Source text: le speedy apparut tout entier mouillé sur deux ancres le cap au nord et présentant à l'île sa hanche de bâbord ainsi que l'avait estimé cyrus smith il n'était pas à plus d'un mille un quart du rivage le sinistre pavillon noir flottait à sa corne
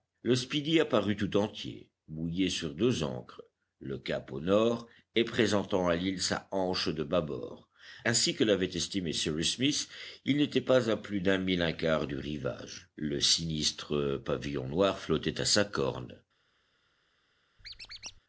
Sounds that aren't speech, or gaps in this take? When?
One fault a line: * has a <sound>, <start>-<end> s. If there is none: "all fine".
* has a squeak, 17.6-18.2 s